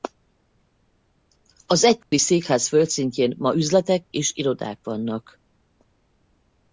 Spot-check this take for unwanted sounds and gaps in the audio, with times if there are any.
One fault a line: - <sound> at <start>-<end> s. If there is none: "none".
- dropout at 2.0-2.1 s